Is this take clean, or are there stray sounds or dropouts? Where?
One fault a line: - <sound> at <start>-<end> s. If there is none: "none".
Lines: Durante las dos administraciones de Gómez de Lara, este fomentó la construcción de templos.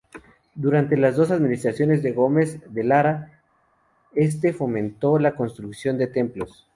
none